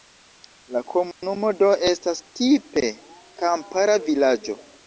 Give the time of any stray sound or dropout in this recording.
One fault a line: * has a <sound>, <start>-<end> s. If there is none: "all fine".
* has a dropout, 1.1-1.2 s